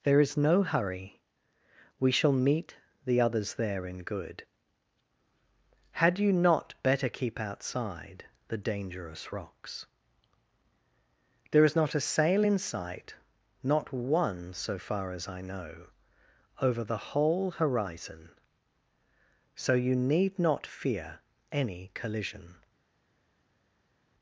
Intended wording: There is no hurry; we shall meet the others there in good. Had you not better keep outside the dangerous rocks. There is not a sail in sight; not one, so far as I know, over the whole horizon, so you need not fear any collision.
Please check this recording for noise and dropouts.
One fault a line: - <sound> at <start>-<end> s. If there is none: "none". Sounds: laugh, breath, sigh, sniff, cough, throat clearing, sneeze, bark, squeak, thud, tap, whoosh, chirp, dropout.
none